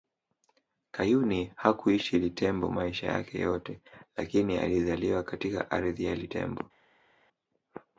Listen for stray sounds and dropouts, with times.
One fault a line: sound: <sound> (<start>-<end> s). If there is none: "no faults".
no faults